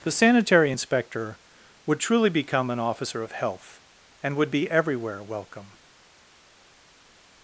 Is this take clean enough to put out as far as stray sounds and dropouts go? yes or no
yes